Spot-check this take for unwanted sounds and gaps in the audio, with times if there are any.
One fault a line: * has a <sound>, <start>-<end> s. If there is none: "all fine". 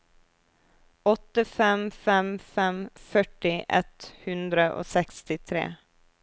all fine